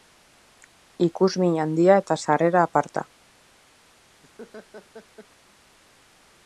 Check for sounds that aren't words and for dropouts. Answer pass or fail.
fail